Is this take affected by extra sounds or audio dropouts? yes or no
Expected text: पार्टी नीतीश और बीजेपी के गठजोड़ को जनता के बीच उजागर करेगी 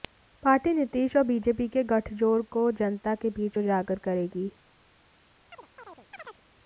yes